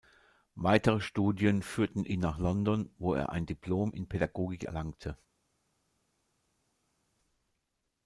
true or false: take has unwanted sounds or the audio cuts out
false